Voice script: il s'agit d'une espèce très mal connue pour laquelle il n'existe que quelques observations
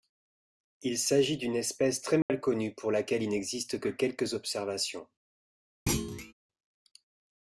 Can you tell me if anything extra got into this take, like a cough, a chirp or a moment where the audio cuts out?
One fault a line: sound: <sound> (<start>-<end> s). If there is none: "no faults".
sound: dropout (2.2-2.3 s)
sound: thud (5.9-6.3 s)